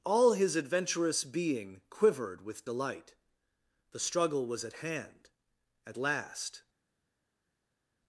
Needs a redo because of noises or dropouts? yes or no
no